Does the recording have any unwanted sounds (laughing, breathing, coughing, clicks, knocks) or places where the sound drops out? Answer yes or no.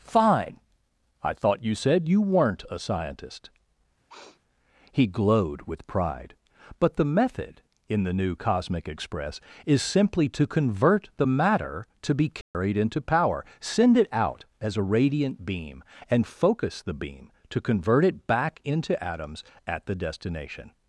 yes